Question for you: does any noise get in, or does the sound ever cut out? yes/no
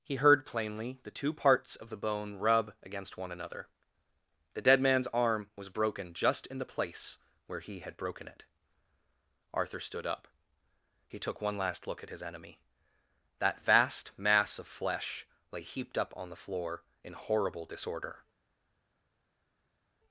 no